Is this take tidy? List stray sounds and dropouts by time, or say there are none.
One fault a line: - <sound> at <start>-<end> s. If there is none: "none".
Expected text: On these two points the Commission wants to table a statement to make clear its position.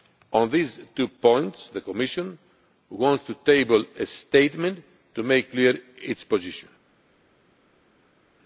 none